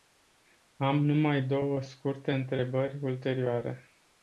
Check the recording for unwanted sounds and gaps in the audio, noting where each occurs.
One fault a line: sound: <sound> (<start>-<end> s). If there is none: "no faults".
no faults